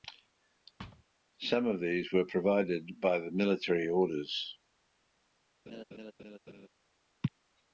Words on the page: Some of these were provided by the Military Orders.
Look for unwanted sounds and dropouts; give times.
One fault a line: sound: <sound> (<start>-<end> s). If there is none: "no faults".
sound: thud (0.8-1.0 s)
sound: laugh (5.7-6.7 s)